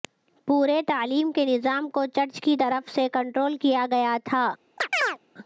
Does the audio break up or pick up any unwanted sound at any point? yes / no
yes